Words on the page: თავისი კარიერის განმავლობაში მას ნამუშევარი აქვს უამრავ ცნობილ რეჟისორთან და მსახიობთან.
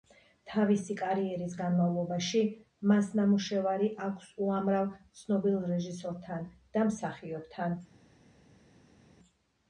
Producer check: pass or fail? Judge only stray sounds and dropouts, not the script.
pass